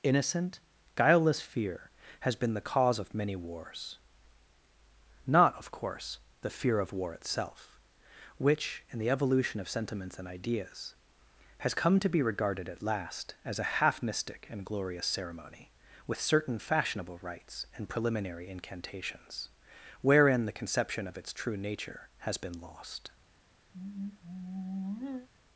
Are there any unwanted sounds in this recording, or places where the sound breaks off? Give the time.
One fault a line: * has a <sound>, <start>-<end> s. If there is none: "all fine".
* has a sigh, 23.7-25.3 s